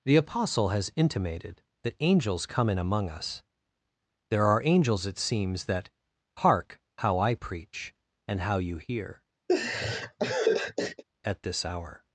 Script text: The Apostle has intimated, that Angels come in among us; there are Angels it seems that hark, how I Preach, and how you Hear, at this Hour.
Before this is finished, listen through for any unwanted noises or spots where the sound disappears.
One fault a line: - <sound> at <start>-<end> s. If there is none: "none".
- laugh at 9.5-11.0 s